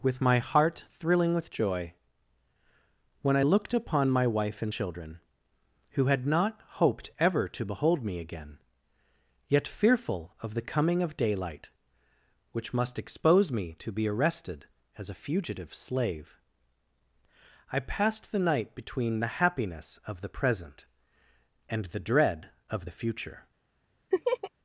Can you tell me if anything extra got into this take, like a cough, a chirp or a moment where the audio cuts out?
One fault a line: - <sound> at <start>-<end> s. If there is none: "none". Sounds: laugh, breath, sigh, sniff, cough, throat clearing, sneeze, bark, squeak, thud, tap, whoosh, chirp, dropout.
- laugh at 24.1-24.5 s